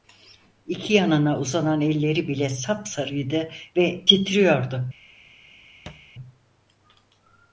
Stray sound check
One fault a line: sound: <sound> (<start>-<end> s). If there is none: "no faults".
sound: thud (5.9-6.1 s)